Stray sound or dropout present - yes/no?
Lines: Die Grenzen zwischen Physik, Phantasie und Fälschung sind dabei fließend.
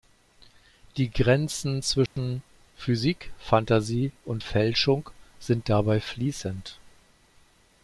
yes